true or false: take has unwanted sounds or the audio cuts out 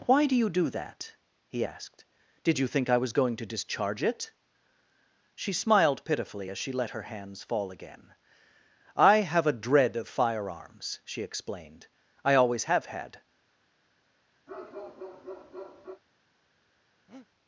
true